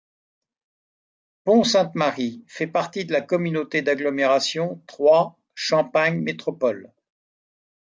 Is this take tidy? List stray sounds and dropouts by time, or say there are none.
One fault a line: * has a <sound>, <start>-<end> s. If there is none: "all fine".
all fine